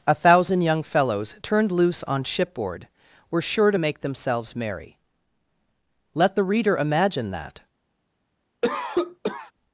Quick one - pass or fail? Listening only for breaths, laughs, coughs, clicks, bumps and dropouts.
fail